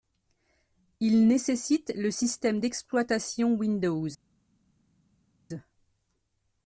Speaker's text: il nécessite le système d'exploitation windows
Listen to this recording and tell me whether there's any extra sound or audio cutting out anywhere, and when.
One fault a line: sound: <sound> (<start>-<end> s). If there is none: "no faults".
no faults